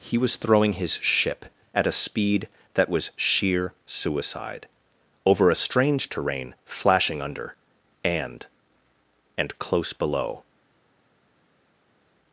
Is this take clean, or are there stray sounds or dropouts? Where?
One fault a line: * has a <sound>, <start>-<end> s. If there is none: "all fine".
all fine